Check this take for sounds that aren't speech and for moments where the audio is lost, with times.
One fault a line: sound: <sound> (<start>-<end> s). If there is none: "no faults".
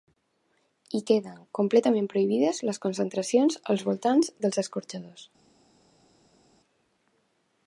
no faults